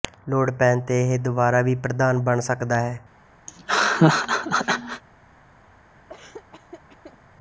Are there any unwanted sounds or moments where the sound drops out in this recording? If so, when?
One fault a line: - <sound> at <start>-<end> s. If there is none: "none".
- laugh at 3.5-5.0 s
- laugh at 6.1-7.2 s